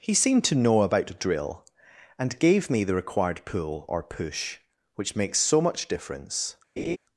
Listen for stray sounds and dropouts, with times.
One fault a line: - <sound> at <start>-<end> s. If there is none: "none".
- laugh at 6.8-7.0 s